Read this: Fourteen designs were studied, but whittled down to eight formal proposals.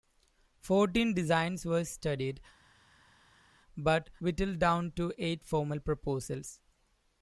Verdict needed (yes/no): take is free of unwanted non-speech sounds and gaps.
yes